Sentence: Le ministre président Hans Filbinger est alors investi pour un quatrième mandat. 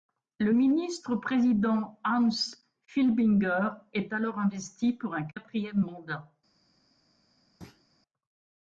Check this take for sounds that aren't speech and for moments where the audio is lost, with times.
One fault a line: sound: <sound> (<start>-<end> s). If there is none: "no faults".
sound: thud (7.6-7.8 s)